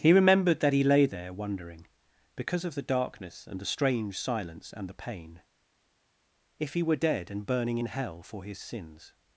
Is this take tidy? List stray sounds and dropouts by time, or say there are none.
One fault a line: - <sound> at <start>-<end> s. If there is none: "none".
none